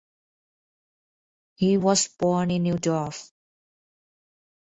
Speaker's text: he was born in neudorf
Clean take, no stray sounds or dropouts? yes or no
yes